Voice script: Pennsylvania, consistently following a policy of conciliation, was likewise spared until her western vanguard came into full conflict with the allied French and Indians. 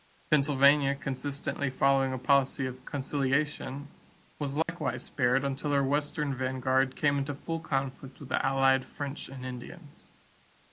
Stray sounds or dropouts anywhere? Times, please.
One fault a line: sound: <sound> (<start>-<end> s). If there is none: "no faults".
sound: dropout (4.6-4.7 s)